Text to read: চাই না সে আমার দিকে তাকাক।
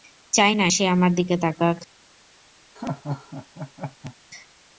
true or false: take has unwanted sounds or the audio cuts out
true